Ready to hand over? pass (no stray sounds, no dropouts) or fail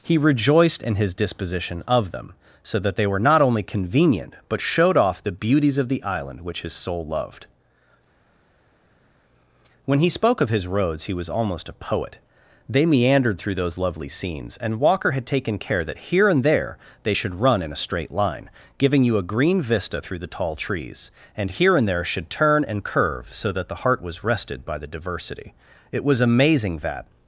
pass